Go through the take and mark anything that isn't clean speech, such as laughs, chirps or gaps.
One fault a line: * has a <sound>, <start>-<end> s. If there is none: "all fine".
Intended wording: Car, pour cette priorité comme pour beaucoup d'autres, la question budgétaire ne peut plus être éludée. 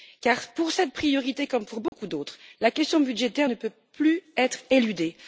* has a dropout, 1.9-1.9 s